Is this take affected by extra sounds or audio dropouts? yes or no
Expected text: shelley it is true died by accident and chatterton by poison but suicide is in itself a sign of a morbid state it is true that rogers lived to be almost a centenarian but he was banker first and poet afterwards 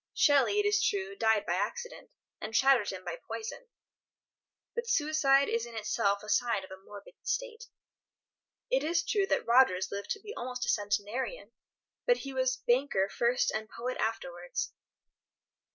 no